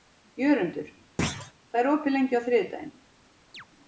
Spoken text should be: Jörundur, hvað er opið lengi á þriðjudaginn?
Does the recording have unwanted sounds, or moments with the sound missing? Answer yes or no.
yes